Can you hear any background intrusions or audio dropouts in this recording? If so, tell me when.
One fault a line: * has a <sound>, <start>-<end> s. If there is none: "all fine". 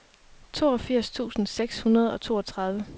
all fine